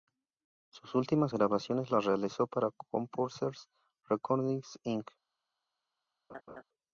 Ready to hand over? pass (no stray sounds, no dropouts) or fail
fail